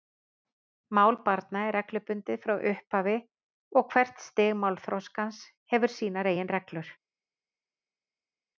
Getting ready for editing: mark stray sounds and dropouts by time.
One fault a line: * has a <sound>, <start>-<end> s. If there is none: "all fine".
all fine